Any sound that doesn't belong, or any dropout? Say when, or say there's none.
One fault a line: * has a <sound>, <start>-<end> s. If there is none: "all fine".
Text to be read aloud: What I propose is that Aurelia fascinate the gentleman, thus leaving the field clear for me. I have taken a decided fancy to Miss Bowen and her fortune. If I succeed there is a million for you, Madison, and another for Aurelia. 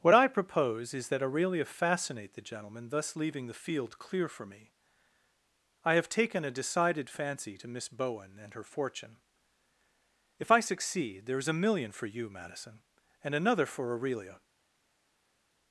all fine